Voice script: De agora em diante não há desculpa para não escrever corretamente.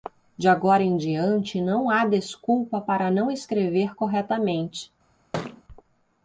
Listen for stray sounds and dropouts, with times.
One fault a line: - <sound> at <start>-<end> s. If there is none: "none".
- thud at 5.3-5.6 s